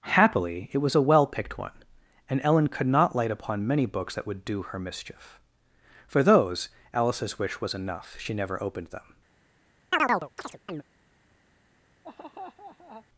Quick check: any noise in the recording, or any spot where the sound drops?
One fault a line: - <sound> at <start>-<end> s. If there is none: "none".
- chirp at 9.9-10.8 s
- laugh at 12.0-13.1 s